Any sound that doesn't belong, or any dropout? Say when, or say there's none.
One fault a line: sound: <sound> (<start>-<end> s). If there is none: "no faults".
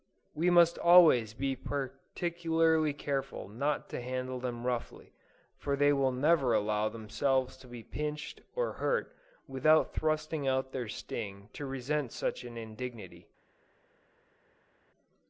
no faults